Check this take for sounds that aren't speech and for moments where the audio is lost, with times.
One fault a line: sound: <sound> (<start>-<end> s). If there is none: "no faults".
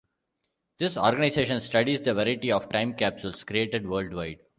no faults